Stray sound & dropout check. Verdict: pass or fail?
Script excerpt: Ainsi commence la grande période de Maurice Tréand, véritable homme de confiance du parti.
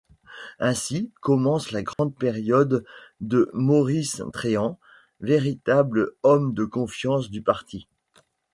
fail